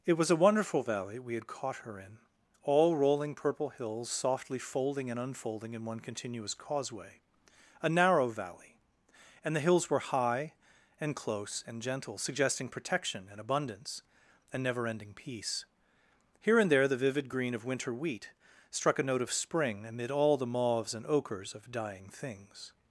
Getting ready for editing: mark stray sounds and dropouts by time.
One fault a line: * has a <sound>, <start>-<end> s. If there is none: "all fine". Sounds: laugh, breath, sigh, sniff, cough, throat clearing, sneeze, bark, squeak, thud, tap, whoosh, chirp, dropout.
all fine